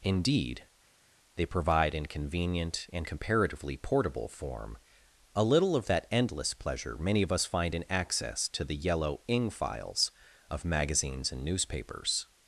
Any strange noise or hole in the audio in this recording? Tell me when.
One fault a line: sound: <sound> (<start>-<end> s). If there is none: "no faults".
no faults